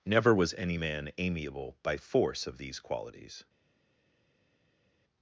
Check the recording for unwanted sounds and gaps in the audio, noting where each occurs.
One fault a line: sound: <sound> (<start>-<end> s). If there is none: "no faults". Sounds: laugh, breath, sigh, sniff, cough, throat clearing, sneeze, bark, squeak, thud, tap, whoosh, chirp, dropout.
no faults